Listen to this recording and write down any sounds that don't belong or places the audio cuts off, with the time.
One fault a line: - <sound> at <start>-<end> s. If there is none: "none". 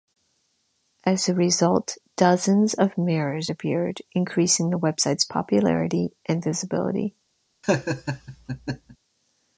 - laugh at 7.6-9.0 s